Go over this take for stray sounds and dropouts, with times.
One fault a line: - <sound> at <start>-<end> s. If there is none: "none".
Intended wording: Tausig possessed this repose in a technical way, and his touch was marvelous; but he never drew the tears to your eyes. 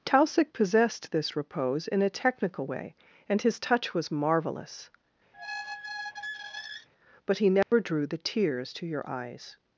- squeak at 5.3-6.9 s
- dropout at 7.6-7.7 s